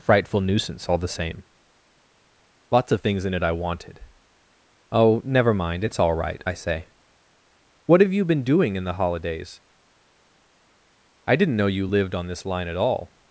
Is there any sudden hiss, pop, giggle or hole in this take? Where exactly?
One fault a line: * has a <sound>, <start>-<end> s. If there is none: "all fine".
all fine